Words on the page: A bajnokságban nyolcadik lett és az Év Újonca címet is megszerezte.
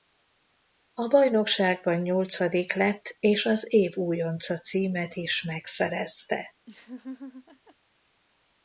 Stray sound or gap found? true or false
true